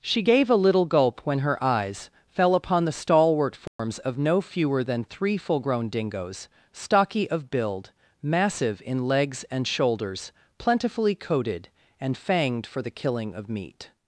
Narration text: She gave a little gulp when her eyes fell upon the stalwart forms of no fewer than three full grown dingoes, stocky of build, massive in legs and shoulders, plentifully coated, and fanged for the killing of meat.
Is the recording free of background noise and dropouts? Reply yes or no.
no